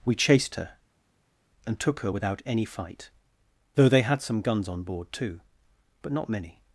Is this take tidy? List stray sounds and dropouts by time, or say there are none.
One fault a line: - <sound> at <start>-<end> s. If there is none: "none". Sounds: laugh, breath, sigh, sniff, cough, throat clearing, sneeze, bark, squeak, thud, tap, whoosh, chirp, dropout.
none